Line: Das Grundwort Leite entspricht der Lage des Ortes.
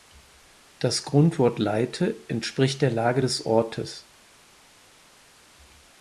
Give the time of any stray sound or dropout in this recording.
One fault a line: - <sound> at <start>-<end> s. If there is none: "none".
none